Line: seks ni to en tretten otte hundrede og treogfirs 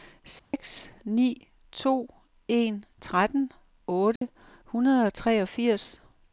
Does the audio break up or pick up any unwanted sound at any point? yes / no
yes